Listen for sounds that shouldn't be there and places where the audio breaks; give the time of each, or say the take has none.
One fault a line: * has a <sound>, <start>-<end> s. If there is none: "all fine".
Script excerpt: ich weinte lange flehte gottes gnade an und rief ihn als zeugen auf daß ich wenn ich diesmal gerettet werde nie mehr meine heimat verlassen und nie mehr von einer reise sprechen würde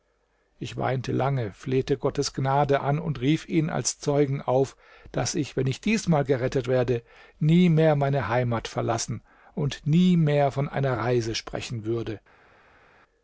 all fine